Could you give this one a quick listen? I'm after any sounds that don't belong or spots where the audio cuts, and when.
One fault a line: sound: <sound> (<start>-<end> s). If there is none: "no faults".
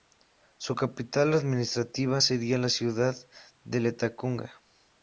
no faults